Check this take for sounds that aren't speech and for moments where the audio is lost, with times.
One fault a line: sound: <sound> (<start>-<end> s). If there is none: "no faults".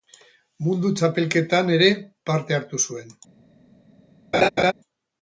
sound: laugh (4.3-4.7 s)